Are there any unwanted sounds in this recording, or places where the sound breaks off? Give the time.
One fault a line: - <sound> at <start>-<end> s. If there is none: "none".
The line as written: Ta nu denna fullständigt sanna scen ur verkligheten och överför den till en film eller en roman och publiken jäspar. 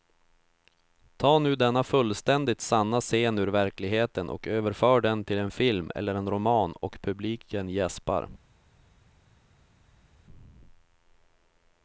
none